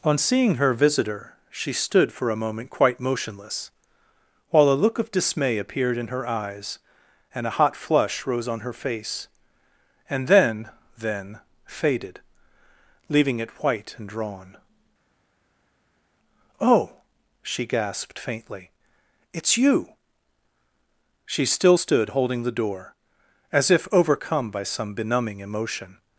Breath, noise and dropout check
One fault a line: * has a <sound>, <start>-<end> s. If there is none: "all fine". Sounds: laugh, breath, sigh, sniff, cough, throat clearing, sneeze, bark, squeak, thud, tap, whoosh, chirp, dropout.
all fine